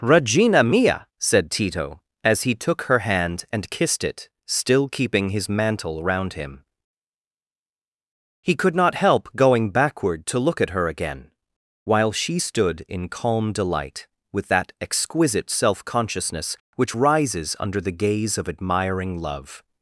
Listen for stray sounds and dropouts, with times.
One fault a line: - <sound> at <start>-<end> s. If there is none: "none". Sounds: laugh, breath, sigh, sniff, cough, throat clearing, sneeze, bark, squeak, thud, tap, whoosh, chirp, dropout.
none